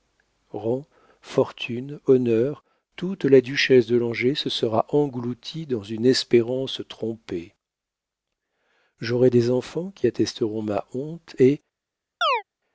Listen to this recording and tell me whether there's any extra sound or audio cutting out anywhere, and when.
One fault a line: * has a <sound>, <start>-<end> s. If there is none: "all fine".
* has a chirp, 12.2-12.4 s